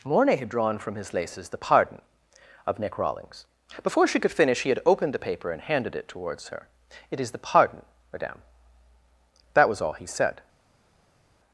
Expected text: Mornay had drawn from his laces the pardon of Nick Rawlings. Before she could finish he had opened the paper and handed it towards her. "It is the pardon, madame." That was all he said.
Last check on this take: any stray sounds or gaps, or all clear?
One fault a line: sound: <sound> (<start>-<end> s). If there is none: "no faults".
no faults